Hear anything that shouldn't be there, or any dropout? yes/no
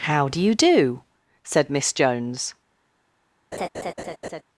yes